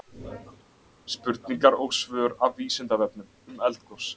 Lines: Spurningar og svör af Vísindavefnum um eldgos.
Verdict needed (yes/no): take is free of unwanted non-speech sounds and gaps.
yes